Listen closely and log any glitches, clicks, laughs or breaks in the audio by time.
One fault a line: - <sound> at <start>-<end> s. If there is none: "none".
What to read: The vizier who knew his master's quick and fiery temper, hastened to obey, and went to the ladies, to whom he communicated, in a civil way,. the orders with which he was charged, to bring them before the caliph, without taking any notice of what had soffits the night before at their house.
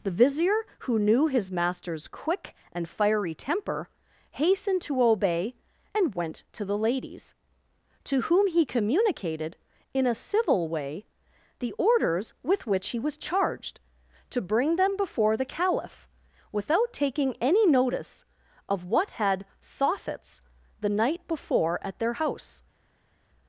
none